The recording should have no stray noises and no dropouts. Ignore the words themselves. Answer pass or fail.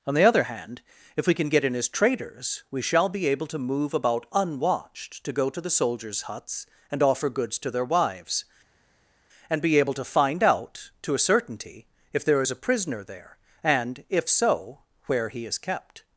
pass